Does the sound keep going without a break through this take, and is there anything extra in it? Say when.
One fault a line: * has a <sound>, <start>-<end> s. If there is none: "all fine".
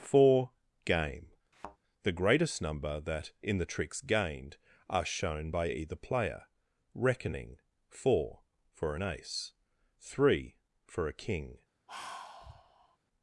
* has a thud, 1.5-1.8 s
* has a sigh, 11.9-13.0 s